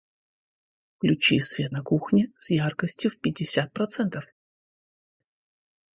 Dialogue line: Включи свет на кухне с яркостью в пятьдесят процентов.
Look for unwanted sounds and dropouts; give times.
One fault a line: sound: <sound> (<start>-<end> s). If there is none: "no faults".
no faults